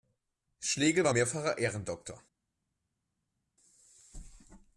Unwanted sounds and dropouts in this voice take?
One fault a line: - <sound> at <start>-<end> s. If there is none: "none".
none